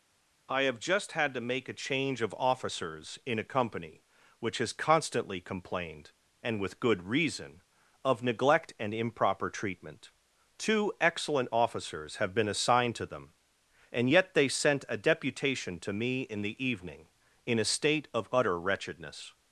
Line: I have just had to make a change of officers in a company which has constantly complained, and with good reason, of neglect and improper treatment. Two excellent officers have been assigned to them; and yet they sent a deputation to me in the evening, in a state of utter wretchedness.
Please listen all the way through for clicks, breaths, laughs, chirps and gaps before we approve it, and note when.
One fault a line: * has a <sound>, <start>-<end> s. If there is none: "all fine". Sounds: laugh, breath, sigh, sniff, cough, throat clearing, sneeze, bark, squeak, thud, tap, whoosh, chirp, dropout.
all fine